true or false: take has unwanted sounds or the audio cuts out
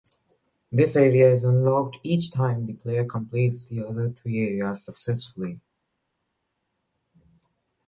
false